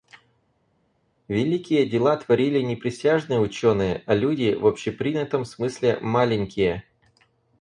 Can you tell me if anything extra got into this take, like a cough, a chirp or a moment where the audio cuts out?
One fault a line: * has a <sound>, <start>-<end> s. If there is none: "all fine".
all fine